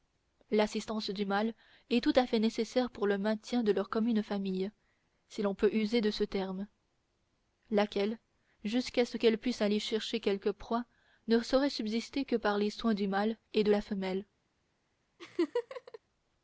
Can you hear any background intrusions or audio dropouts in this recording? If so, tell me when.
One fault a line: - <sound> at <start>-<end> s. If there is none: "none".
- laugh at 15.2-16.0 s